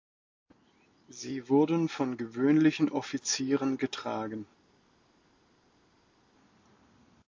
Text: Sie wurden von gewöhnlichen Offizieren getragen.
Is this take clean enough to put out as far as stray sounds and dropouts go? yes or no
yes